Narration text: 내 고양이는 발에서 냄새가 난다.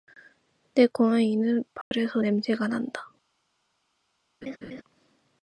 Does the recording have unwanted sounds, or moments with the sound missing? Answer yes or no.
yes